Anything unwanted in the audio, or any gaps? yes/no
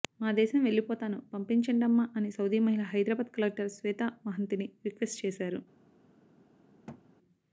yes